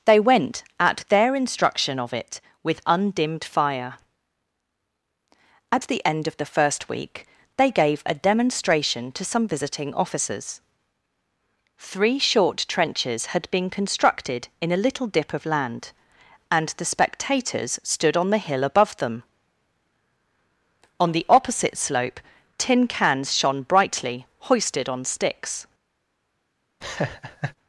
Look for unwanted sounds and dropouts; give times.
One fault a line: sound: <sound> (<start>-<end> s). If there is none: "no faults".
sound: laugh (26.8-27.6 s)